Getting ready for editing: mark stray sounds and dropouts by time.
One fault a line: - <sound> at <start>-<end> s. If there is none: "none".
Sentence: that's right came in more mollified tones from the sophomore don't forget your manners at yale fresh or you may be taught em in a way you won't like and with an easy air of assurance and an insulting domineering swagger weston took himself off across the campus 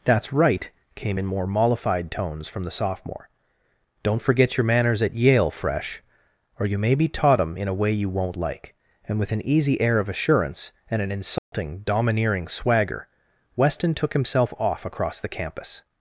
- dropout at 11.4-11.5 s